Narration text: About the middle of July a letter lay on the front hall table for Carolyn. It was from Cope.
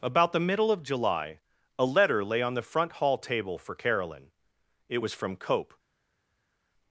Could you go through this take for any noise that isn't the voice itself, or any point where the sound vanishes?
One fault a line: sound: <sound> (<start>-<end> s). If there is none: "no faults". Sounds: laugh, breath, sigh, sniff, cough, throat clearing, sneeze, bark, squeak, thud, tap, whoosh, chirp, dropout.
no faults